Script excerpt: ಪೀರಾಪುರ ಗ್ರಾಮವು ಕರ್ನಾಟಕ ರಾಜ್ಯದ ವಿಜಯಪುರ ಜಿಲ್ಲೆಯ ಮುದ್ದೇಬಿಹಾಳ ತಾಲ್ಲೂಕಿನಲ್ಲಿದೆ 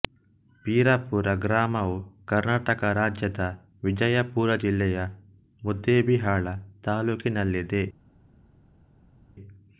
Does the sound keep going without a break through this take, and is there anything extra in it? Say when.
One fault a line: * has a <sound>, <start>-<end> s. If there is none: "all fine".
all fine